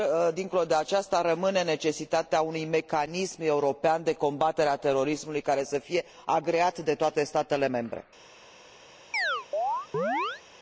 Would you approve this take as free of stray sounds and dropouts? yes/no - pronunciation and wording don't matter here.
no